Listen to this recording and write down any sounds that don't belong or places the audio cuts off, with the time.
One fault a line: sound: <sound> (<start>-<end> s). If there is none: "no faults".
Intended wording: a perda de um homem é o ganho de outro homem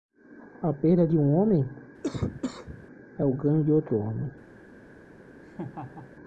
sound: cough (2.0-2.9 s)
sound: laugh (5.4-6.1 s)